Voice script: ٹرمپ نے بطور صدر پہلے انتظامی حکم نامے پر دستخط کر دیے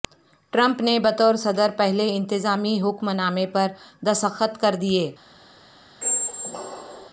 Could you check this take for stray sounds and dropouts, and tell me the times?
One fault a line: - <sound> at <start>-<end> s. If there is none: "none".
- squeak at 6.0-7.1 s